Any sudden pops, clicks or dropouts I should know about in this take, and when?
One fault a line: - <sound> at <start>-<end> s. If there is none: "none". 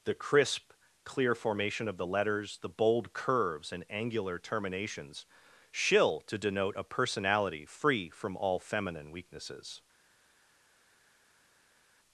none